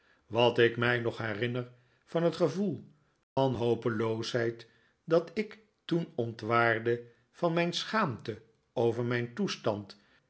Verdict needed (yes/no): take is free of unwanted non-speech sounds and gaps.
no